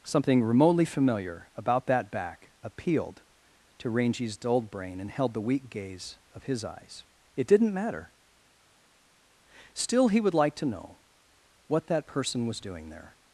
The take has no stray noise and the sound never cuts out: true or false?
true